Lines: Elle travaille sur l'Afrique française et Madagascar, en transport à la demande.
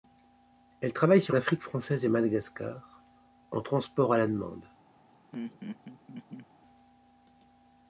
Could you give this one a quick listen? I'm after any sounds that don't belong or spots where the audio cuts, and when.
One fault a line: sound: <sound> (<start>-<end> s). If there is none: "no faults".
sound: laugh (5.3-6.5 s)